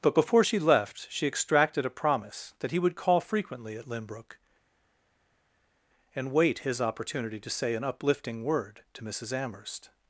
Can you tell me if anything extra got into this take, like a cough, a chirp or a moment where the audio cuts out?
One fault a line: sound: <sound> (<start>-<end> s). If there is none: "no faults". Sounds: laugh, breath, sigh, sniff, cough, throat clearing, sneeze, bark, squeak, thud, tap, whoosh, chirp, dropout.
no faults